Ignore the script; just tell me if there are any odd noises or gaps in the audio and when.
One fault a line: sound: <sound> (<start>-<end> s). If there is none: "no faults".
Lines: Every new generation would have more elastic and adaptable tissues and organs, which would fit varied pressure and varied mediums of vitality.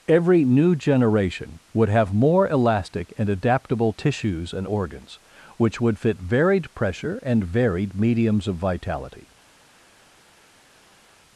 no faults